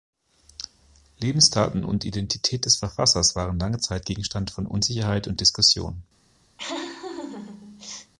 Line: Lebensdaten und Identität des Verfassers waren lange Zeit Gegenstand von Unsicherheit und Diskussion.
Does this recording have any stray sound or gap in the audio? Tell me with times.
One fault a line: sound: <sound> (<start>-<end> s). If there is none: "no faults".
sound: laugh (6.6-8.1 s)